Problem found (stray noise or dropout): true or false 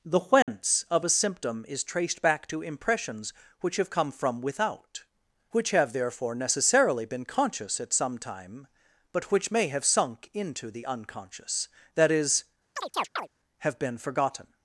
true